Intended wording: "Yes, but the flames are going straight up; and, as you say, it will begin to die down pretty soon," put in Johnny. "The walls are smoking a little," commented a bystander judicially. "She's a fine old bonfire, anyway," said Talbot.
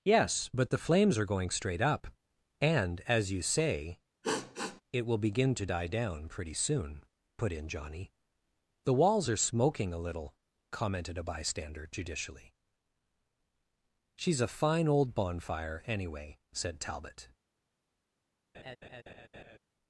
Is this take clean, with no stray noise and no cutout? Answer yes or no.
no